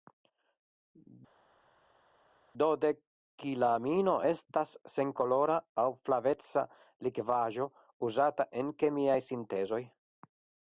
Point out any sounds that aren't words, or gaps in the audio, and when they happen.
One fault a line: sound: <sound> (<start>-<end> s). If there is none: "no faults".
no faults